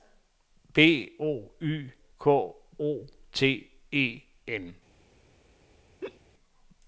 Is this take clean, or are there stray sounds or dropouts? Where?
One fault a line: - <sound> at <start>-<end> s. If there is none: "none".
- laugh at 6.0-6.2 s